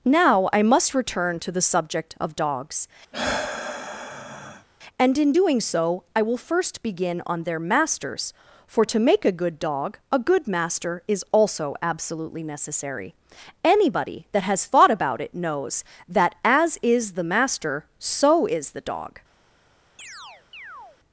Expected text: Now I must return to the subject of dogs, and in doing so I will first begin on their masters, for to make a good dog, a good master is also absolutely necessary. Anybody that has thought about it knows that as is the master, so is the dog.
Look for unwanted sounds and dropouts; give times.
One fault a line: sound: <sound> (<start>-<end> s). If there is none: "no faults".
sound: sigh (3.1-4.7 s)
sound: chirp (20.0-21.0 s)